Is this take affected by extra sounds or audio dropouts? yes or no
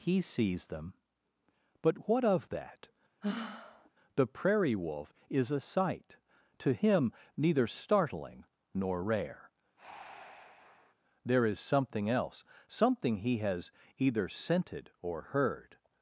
yes